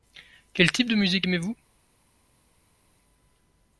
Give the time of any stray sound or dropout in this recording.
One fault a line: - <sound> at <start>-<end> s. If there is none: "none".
none